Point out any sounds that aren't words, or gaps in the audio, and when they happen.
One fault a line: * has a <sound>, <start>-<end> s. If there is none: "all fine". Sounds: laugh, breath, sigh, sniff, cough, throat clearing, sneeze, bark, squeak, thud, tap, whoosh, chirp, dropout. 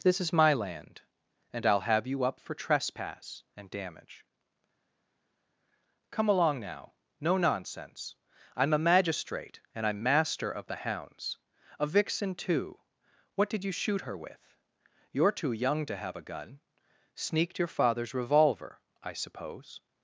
all fine